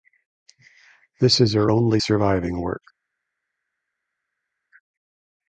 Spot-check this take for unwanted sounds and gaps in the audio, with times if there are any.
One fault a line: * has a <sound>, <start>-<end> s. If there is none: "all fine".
all fine